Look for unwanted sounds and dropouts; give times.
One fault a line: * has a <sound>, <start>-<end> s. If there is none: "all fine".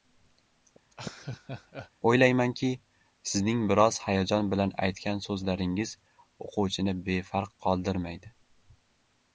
* has a laugh, 0.9-1.9 s